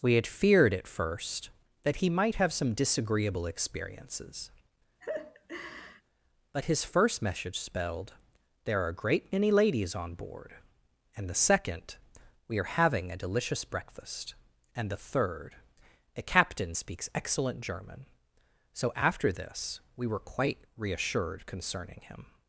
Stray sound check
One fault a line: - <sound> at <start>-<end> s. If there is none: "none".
- laugh at 5.0-6.0 s